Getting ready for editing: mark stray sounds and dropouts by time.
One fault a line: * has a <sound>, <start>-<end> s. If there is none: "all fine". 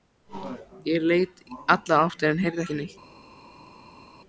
all fine